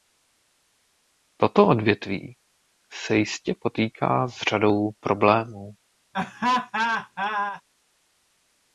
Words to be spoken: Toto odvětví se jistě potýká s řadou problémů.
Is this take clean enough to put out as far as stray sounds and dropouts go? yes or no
no